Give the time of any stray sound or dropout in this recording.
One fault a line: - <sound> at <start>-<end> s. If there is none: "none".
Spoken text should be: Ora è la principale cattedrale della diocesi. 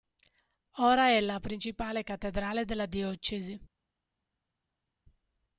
none